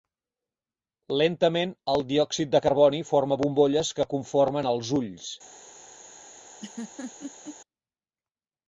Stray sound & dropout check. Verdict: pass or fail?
fail